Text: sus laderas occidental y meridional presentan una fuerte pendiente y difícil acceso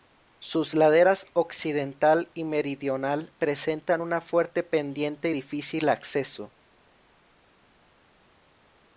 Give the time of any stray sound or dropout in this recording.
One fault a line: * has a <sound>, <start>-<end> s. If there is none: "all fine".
all fine